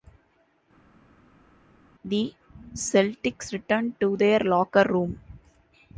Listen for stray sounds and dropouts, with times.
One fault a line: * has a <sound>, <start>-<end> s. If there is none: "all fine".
all fine